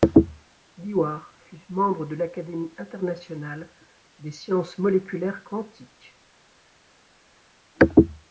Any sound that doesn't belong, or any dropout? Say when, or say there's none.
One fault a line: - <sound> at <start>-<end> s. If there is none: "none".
none